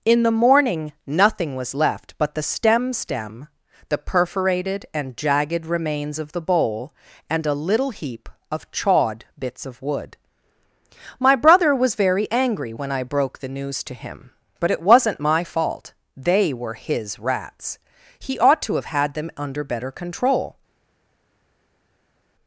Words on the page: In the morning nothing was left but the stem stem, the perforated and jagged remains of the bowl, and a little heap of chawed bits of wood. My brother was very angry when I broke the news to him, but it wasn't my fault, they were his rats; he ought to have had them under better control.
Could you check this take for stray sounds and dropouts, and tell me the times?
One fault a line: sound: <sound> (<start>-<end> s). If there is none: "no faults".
no faults